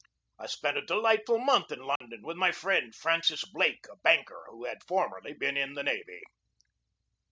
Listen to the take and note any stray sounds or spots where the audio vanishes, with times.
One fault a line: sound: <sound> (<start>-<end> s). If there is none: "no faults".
sound: dropout (2.0-2.0 s)